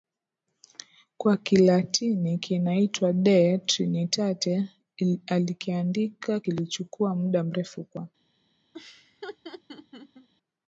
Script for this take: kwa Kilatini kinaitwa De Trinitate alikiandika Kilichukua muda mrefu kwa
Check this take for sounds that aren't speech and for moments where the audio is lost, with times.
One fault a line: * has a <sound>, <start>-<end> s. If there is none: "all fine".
* has a laugh, 8.7-10.3 s